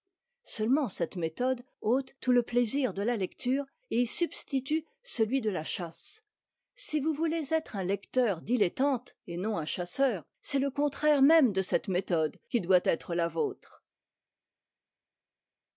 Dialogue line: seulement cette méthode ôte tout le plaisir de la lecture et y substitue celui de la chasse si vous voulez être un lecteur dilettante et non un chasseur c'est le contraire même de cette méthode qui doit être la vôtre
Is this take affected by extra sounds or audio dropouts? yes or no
no